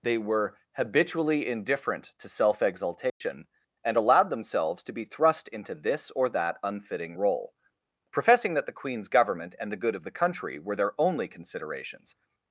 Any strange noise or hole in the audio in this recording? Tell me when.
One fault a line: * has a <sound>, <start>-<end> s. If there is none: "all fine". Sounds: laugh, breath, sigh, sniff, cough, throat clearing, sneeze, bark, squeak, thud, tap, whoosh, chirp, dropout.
* has a dropout, 3.1-3.2 s